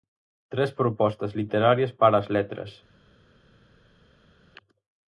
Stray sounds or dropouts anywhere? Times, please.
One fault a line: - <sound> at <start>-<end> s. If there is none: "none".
none